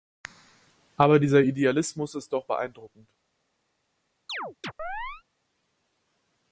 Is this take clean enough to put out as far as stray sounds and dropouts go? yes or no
no